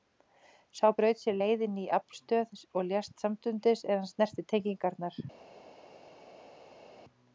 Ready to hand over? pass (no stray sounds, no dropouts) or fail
pass